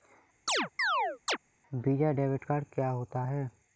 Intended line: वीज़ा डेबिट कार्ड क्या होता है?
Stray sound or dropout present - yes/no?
yes